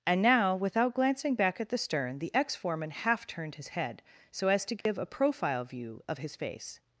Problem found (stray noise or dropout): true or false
true